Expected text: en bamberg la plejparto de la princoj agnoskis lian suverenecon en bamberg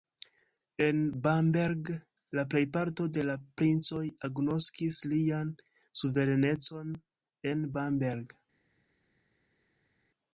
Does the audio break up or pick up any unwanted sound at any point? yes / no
no